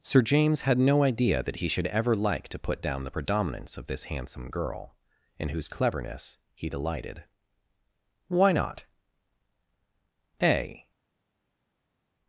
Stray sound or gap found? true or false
false